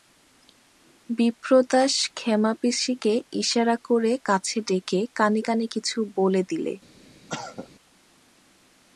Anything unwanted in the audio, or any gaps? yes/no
yes